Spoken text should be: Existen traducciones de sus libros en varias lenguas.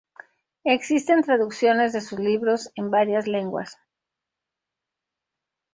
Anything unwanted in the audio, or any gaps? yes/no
no